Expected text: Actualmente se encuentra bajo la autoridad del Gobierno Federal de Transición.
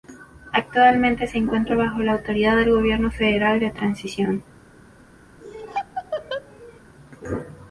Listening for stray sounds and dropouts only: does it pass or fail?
fail